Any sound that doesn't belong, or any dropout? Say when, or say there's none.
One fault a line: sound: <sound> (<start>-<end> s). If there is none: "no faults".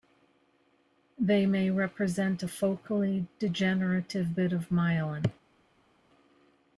no faults